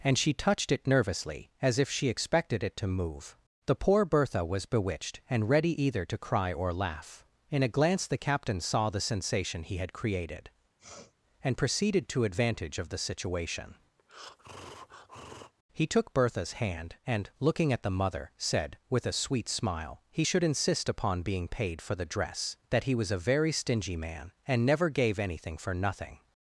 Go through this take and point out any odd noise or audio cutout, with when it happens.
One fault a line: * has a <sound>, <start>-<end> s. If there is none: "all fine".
* has a sniff, 10.8-11.1 s
* has a breath, 14.0-15.5 s